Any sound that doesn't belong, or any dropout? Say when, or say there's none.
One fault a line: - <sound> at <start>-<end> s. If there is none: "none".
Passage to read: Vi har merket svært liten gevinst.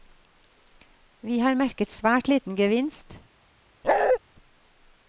- bark at 3.8-4.2 s